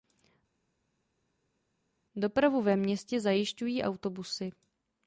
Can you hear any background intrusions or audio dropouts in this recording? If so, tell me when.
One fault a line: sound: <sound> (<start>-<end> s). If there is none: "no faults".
no faults